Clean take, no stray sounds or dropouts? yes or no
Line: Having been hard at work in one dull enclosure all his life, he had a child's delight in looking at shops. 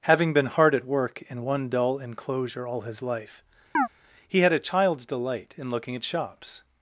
no